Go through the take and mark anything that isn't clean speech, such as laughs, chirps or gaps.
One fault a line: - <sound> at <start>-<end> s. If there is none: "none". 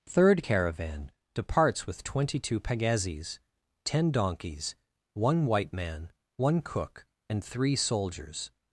none